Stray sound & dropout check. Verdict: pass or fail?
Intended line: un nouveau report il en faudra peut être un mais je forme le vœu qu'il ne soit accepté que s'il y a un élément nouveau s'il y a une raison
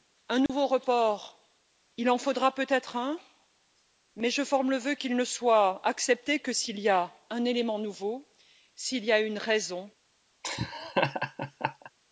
fail